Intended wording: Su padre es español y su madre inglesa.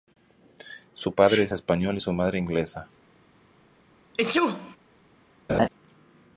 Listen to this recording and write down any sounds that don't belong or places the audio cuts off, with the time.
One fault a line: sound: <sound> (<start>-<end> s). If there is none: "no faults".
sound: sneeze (4.1-4.8 s)
sound: laugh (5.5-5.7 s)